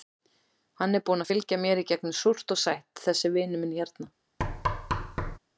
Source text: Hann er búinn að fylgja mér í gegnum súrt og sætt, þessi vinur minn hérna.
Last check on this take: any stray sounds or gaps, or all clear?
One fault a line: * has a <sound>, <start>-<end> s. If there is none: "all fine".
* has a thud, 4.4-5.4 s